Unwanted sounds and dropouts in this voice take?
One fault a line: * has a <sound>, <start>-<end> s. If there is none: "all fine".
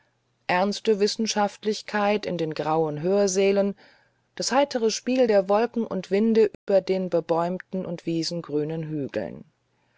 * has a dropout, 6.5-6.7 s